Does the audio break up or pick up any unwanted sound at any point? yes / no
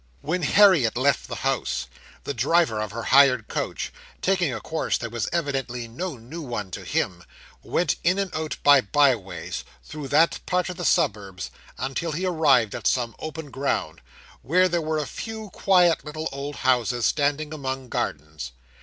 no